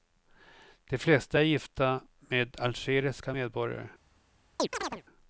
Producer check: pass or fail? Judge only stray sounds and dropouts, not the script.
fail